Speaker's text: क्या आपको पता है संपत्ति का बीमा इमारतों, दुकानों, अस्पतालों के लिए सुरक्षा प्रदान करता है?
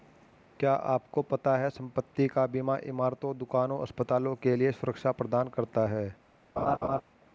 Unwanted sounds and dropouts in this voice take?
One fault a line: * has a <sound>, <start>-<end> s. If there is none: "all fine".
* has a laugh, 6.6-7.0 s